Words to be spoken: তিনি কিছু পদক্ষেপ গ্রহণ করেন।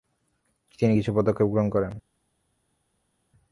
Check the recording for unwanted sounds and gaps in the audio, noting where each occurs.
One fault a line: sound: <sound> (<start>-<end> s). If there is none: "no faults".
no faults